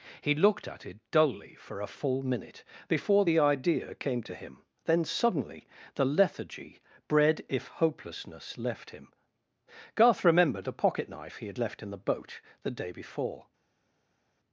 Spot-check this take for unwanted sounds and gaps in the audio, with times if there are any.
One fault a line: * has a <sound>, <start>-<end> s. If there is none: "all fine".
all fine